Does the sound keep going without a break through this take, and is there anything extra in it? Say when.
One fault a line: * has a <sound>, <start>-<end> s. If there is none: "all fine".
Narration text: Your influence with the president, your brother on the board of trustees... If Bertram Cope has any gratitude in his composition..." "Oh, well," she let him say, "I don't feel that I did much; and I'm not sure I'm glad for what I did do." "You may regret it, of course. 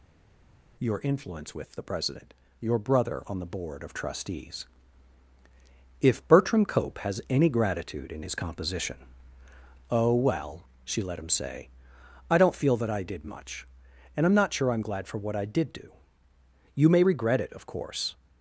all fine